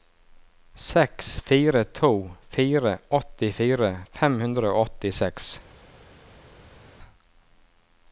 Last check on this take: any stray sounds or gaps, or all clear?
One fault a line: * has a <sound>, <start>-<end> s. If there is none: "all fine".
all fine